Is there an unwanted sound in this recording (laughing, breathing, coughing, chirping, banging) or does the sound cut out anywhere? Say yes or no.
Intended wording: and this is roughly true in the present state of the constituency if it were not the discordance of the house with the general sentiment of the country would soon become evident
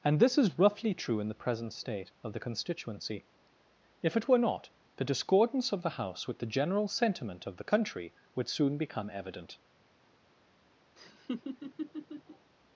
yes